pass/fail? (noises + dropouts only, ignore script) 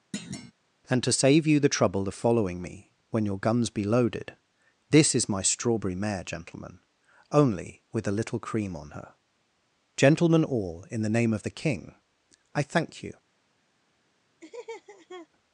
fail